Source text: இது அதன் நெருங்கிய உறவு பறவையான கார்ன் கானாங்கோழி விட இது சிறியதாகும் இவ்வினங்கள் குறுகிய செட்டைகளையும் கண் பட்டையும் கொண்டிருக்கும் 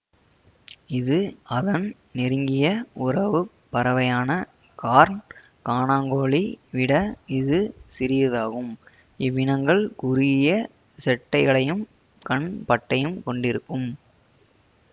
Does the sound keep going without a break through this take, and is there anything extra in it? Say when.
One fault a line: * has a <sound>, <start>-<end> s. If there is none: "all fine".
all fine